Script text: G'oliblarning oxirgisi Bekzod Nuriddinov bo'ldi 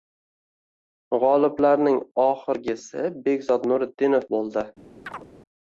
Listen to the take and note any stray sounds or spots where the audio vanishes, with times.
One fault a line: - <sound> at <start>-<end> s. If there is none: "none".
- chirp at 5.1-5.3 s